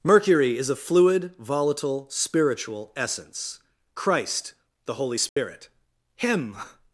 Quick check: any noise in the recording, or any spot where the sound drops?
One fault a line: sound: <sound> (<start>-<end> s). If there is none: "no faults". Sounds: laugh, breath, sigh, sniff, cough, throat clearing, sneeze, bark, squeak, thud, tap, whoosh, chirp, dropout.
sound: dropout (5.3-5.4 s)